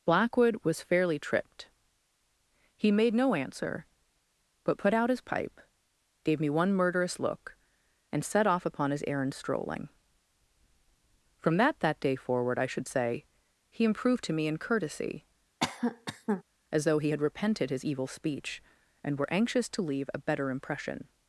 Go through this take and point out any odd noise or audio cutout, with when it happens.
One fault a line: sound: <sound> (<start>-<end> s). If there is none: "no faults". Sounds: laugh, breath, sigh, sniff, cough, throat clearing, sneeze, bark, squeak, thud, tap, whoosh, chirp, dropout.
sound: cough (15.6-16.4 s)